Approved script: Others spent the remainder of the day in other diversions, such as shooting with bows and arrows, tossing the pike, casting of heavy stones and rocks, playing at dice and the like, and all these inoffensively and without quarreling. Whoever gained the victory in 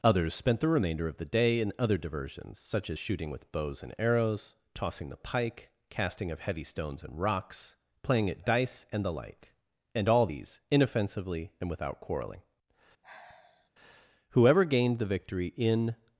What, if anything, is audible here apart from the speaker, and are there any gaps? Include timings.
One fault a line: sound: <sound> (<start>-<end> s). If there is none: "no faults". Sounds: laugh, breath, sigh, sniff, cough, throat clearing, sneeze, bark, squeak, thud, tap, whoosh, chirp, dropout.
sound: sigh (13.0-13.7 s)